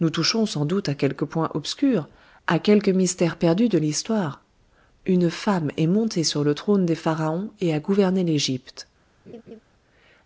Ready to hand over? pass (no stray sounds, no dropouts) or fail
fail